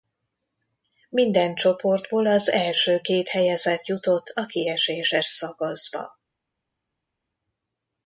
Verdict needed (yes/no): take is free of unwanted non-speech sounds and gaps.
yes